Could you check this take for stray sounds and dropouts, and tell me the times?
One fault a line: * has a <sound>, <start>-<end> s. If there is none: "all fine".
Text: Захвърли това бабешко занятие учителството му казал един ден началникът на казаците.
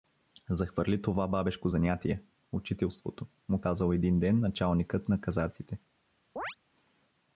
* has a chirp, 6.4-6.6 s